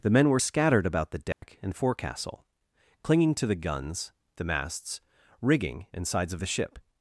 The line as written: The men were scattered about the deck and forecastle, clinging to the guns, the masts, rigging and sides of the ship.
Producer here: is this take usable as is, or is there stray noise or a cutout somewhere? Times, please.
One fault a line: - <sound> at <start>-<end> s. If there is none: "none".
- dropout at 1.3-1.4 s